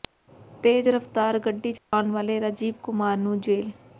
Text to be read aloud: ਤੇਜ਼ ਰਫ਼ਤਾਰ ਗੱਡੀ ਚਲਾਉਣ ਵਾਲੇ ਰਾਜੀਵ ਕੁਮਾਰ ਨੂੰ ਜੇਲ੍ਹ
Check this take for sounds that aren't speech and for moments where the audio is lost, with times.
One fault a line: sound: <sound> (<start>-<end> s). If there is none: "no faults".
sound: dropout (1.8-1.9 s)